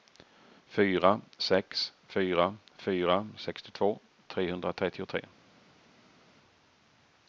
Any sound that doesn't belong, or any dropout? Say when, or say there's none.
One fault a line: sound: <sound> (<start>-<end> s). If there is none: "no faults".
no faults